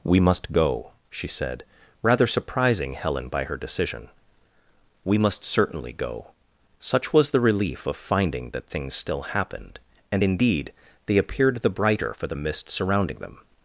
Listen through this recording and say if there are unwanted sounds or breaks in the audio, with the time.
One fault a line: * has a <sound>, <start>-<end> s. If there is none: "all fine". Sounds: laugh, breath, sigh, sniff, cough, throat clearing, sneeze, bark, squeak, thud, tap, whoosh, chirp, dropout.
all fine